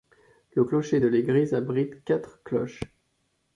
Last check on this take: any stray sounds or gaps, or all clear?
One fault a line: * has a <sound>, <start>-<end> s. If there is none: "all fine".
all fine